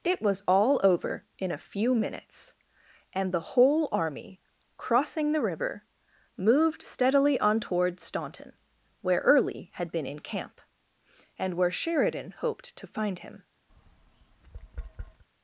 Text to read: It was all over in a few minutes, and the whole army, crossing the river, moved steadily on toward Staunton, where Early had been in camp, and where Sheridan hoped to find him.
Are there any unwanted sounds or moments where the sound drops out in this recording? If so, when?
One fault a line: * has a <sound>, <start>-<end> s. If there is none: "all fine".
* has a tap, 13.7-15.2 s